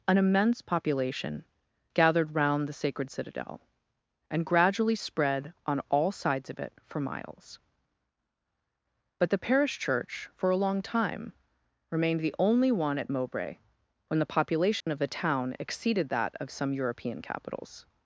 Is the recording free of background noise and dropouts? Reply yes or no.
no